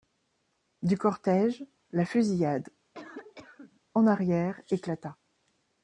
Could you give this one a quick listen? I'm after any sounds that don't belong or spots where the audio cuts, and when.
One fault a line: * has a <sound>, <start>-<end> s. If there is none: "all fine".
* has a cough, 2.9-3.8 s